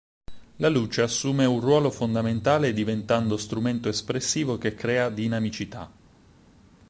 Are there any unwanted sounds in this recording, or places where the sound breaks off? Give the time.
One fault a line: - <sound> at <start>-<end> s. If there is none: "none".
none